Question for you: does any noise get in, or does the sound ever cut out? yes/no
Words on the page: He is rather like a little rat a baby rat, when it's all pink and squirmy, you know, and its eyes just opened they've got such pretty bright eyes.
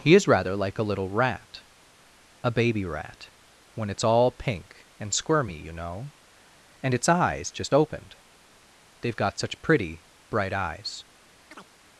yes